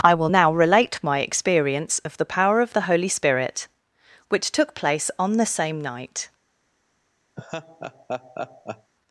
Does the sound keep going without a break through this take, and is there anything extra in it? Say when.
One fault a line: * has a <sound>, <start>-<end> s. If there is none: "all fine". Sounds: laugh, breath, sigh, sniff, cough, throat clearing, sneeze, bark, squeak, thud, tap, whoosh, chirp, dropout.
* has a laugh, 7.4-8.9 s